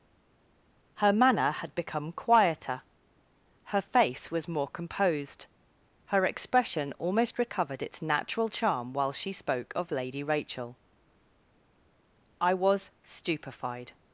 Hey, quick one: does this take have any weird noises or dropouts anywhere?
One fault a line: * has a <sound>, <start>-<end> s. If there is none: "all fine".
all fine